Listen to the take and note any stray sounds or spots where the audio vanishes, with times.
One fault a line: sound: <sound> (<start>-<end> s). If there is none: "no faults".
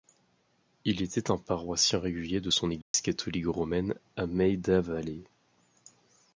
sound: dropout (2.8-2.9 s)